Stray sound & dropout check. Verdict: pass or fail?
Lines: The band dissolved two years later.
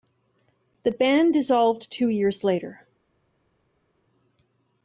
pass